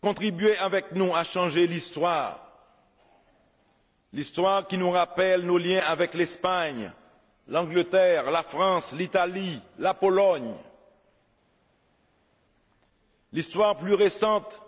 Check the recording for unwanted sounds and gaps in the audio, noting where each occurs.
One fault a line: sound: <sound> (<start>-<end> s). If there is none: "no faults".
no faults